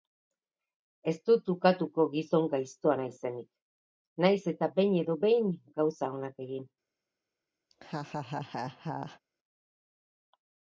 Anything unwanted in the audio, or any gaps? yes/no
yes